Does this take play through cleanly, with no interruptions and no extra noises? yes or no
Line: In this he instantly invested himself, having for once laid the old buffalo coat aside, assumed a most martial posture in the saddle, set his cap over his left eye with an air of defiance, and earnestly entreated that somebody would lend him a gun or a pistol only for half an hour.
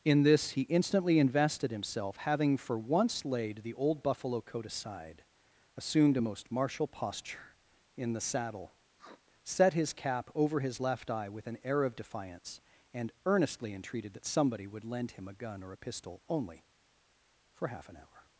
no